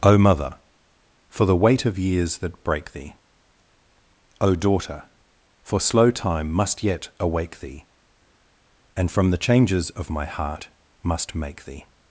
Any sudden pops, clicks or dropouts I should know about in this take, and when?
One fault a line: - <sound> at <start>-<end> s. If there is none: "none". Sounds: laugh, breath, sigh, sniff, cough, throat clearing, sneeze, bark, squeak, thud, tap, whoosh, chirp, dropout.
none